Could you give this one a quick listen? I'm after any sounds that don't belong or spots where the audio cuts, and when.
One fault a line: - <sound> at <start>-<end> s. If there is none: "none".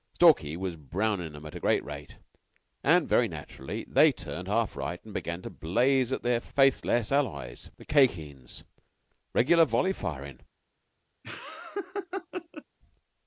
- laugh at 11.2-12.6 s